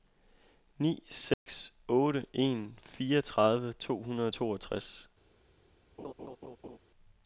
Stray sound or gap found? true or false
true